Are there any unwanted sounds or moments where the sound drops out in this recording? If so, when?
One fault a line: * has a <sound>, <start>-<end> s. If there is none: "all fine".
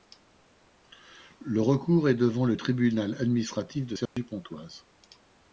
* has a dropout, 4.1-4.2 s